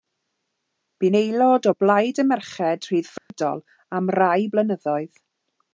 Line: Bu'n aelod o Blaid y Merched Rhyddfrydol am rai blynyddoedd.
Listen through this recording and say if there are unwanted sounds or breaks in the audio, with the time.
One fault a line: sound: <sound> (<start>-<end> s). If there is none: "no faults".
sound: dropout (3.2-3.3 s)